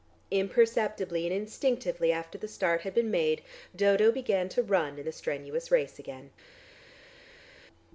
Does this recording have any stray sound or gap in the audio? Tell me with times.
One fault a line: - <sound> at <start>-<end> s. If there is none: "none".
none